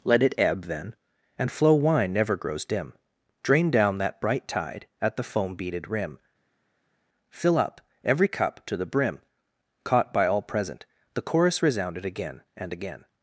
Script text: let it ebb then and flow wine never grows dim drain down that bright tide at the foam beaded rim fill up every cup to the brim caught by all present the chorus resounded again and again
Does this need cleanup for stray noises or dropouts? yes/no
no